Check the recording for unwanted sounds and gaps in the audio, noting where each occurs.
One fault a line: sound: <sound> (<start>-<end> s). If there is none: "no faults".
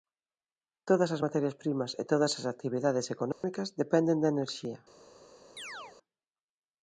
sound: dropout (3.3-3.4 s)
sound: chirp (5.6-6.0 s)